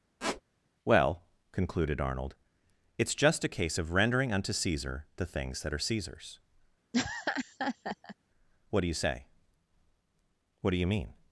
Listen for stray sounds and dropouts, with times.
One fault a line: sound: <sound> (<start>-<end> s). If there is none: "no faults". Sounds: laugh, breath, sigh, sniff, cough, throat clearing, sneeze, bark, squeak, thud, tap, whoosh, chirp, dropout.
sound: squeak (0.2-0.4 s)
sound: laugh (6.9-8.2 s)